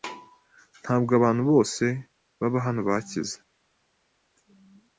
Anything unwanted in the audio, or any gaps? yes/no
no